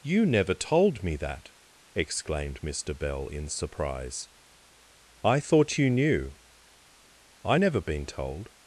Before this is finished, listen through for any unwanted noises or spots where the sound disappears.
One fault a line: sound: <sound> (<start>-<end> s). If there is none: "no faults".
no faults